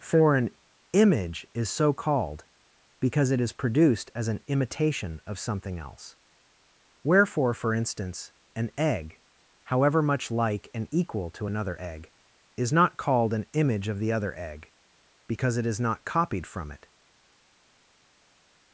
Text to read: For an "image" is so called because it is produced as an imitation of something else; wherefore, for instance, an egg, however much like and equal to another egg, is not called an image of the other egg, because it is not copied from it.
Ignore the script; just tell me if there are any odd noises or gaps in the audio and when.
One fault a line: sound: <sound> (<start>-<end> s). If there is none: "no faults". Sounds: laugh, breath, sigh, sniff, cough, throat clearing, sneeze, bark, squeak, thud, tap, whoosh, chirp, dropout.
no faults